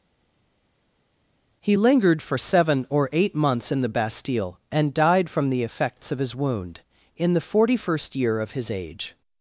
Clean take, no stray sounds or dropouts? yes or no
yes